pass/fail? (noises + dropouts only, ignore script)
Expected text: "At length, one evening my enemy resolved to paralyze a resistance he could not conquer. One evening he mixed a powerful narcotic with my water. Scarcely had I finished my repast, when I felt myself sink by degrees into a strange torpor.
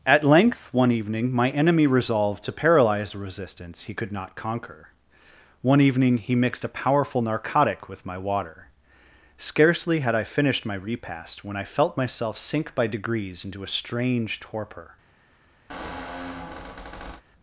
fail